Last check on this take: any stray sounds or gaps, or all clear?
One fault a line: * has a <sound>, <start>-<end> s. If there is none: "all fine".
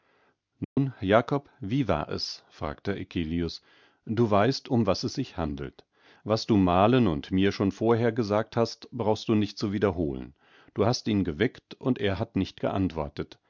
* has a dropout, 0.6-0.8 s